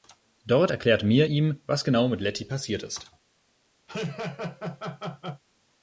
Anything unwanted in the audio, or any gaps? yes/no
yes